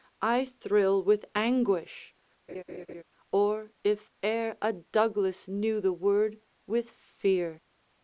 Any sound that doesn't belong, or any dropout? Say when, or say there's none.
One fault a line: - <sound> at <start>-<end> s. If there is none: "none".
- laugh at 2.5-3.0 s